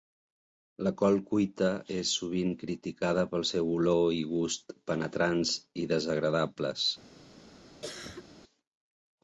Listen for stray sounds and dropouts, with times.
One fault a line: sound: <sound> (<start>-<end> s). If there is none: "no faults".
sound: cough (7.8-8.3 s)